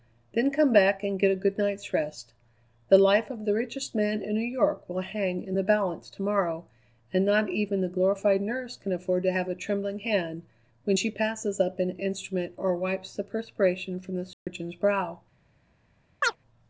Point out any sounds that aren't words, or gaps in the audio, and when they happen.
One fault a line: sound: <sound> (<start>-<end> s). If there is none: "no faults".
sound: dropout (14.3-14.5 s)
sound: chirp (16.2-16.4 s)